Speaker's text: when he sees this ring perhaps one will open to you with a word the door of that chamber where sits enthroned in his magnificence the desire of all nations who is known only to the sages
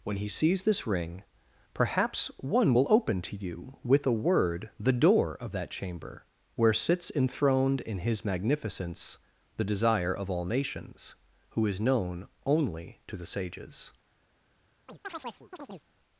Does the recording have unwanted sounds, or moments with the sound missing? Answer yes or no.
yes